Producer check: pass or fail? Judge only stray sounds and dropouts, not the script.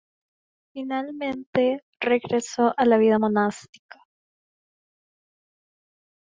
pass